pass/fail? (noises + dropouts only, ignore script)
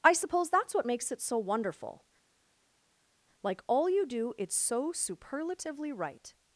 pass